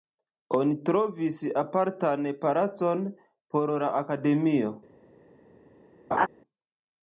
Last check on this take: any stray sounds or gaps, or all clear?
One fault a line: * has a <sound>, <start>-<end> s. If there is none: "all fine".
* has a laugh, 6.1-6.3 s